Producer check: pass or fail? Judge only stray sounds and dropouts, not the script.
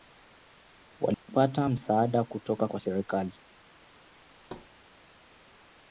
fail